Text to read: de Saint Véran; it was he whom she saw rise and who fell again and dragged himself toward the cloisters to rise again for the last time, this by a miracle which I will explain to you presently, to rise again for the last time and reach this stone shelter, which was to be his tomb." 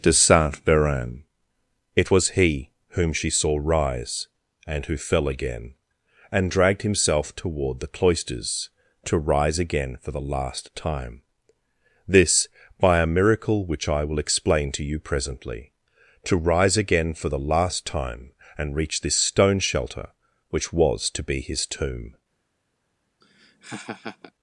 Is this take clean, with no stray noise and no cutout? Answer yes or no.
no